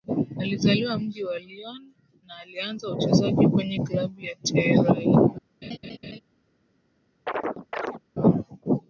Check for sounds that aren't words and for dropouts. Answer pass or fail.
fail